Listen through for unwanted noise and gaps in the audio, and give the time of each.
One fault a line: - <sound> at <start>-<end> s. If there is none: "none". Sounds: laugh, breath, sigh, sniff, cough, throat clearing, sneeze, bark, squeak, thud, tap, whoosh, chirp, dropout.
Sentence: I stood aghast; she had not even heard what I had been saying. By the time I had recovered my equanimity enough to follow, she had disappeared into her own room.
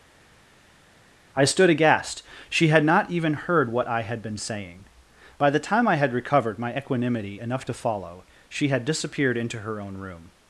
none